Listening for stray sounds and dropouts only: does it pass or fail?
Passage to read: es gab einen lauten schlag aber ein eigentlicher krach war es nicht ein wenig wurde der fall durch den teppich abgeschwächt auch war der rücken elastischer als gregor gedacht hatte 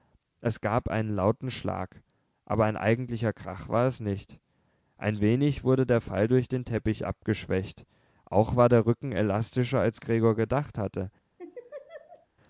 fail